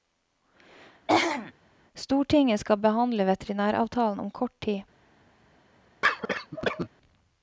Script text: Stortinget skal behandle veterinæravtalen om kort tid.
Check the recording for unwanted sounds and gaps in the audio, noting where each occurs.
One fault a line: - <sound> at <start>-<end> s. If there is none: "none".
- throat clearing at 1.1-1.5 s
- cough at 6.0-6.9 s